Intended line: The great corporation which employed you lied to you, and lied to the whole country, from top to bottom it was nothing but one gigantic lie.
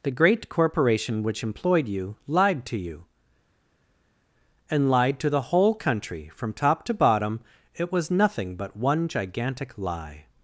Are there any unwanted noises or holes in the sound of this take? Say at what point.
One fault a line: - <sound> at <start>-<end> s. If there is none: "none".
none